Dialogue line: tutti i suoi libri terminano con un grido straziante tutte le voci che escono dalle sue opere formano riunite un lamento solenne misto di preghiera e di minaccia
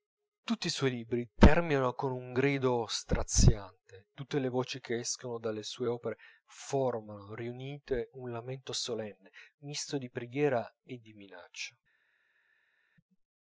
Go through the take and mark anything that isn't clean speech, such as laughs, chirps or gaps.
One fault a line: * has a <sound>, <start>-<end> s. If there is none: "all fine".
all fine